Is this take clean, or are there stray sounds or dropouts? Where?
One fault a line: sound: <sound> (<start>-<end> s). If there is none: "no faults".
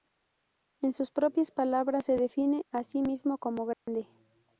sound: dropout (3.7-3.9 s)